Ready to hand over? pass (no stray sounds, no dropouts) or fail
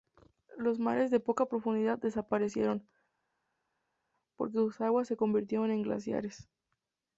pass